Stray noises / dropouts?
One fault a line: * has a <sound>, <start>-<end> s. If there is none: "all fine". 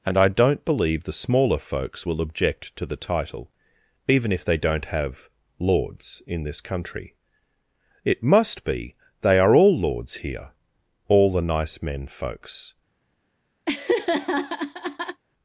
* has a laugh, 13.7-15.2 s